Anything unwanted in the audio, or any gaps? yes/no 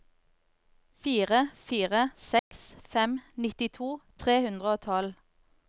yes